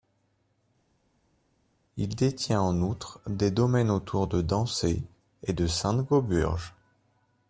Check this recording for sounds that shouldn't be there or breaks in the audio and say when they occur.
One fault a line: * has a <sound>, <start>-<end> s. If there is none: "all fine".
all fine